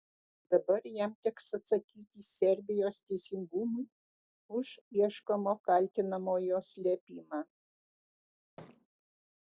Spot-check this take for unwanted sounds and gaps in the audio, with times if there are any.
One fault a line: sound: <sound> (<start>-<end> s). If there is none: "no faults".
sound: thud (8.6-8.9 s)